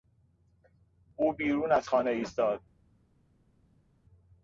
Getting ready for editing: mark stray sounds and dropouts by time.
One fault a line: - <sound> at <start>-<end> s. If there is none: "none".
none